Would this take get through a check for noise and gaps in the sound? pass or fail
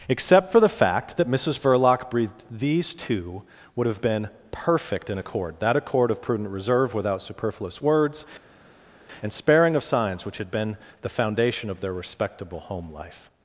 pass